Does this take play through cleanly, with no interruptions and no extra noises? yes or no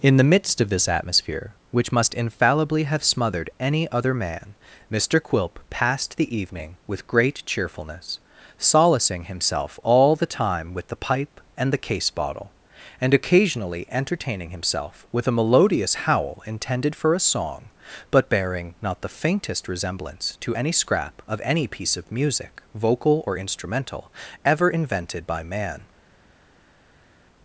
yes